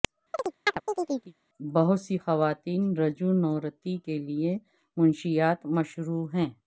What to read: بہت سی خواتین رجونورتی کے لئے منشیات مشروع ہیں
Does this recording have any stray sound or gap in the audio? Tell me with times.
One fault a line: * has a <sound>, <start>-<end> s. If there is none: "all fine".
* has a chirp, 0.3-1.3 s